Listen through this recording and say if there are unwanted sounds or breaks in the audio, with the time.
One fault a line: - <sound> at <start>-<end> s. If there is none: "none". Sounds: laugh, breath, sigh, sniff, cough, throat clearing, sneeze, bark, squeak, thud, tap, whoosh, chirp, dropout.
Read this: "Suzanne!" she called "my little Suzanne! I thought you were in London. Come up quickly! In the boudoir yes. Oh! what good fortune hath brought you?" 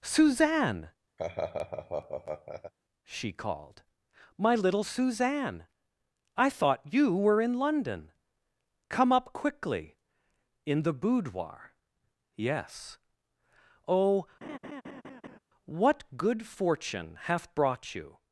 - laugh at 1.2-2.7 s
- laugh at 14.4-15.4 s